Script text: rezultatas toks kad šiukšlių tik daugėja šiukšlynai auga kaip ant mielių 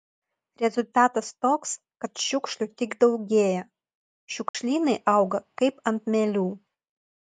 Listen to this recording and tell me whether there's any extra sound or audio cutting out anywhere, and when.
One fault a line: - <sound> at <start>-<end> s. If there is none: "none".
- dropout at 4.5-4.5 s